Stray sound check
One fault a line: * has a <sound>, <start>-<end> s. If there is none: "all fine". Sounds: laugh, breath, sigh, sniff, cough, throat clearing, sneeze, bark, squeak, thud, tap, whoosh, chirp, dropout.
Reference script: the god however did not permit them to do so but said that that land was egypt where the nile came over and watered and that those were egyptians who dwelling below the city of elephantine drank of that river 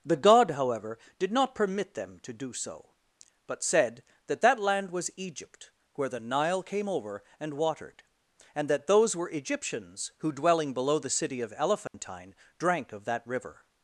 * has a dropout, 11.9-11.9 s